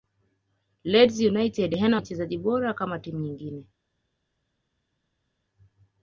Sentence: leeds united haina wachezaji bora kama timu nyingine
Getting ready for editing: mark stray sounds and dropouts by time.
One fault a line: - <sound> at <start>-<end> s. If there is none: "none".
none